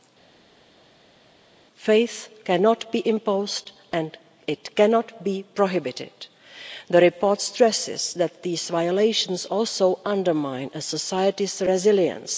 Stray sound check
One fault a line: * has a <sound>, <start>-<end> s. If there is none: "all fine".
all fine